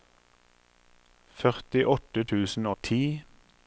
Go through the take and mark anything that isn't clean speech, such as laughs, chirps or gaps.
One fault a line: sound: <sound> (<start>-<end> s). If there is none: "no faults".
no faults